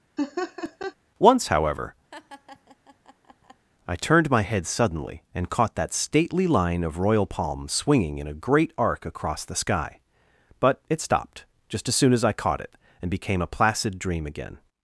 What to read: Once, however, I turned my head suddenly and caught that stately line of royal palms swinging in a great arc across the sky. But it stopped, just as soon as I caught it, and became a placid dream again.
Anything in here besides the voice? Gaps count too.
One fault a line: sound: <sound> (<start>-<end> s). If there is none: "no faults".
sound: laugh (0.2-0.9 s)
sound: laugh (2.1-3.7 s)